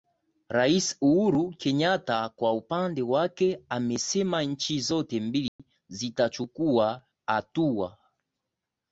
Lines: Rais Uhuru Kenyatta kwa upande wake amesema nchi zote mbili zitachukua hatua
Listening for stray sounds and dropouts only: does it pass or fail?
fail